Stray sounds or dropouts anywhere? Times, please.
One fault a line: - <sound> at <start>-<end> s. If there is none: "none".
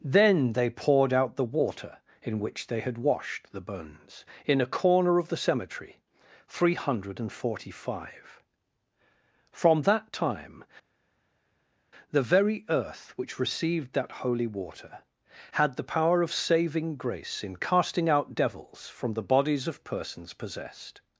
none